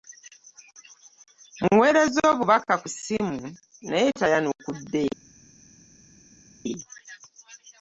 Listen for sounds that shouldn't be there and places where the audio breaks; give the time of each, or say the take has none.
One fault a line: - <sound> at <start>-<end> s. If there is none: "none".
none